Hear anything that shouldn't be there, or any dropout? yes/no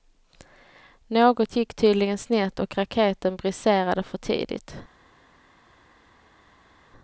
no